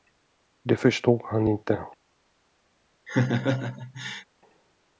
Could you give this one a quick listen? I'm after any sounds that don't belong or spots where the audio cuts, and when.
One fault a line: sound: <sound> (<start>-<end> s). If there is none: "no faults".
sound: laugh (3.1-4.3 s)